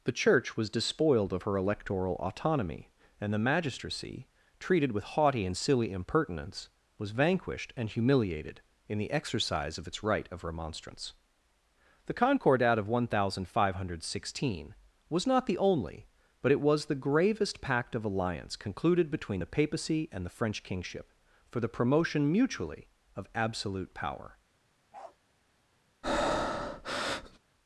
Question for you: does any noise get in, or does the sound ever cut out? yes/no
yes